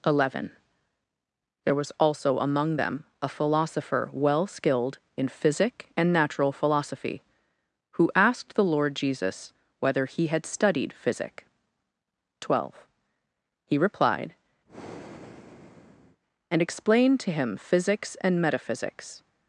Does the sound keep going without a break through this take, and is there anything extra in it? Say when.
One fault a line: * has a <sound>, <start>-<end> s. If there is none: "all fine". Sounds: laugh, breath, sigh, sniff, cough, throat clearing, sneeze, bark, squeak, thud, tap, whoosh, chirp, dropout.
* has a breath, 14.7-16.2 s